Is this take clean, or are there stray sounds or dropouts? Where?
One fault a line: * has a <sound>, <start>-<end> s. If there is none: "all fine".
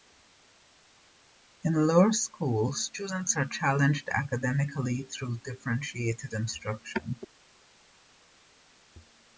all fine